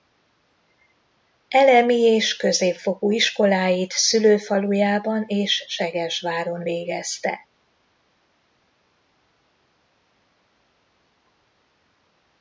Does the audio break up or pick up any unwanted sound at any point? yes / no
no